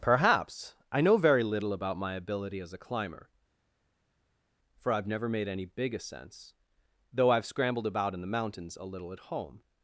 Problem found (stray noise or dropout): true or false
false